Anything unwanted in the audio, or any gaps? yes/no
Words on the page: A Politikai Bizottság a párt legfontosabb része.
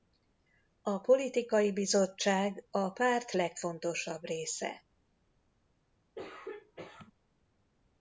yes